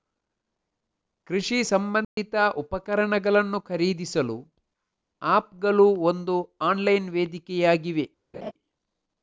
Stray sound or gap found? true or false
true